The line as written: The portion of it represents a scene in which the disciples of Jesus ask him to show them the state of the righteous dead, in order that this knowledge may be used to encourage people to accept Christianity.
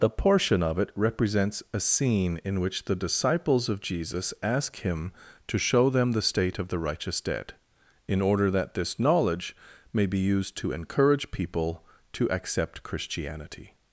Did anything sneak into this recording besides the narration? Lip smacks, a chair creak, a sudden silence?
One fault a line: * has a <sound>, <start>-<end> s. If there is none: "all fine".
all fine